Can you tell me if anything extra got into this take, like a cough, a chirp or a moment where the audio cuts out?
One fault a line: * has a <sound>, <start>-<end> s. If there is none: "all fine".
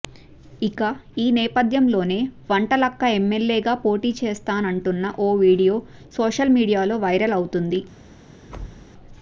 * has a thud, 8.5-8.9 s